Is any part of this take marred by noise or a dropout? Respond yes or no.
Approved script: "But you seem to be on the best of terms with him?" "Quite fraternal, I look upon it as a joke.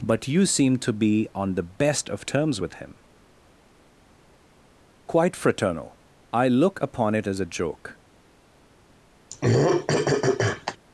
yes